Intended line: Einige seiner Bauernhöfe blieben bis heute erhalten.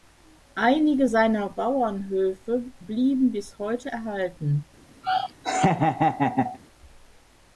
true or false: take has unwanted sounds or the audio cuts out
true